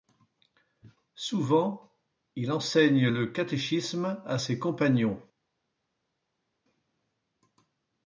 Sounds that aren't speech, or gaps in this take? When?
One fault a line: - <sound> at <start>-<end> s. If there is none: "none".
none